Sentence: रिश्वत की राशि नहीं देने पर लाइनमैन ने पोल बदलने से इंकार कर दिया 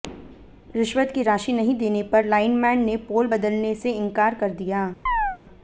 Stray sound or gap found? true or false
true